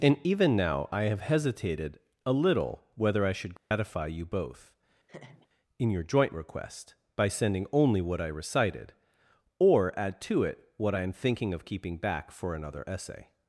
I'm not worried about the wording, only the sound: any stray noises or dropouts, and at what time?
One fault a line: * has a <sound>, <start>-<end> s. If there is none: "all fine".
* has a dropout, 3.6-3.7 s
* has a laugh, 5.1-5.5 s